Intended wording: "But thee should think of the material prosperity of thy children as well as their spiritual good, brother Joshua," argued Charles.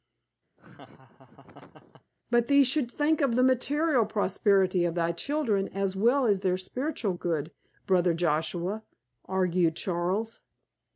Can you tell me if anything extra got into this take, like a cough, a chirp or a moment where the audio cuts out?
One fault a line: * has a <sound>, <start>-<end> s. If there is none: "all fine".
* has a laugh, 0.6-2.1 s